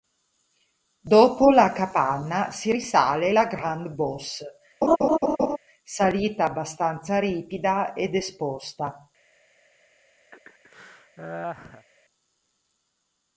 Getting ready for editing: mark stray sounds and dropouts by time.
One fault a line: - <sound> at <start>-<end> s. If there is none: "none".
- laugh at 4.8-5.6 s
- laugh at 10.3-11.9 s